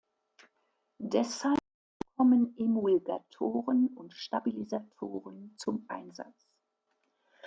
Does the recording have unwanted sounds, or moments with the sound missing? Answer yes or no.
no